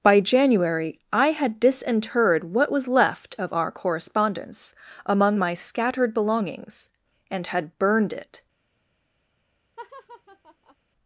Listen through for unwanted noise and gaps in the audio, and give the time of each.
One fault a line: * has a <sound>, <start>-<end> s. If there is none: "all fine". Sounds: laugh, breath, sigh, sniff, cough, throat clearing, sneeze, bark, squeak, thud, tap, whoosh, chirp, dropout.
* has a laugh, 9.8-10.8 s